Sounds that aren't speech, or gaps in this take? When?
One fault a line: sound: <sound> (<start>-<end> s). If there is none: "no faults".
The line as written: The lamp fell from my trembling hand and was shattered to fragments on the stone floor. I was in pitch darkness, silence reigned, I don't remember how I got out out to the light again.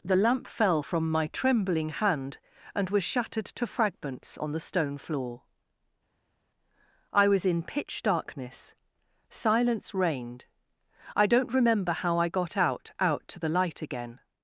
no faults